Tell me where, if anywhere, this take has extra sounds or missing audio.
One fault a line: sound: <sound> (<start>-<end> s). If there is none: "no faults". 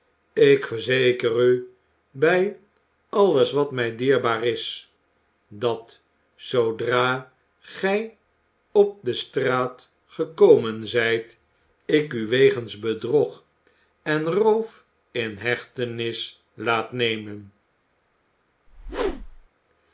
sound: whoosh (18.7-19.5 s)